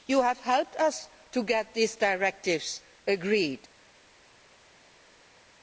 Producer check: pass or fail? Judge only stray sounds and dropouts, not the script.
pass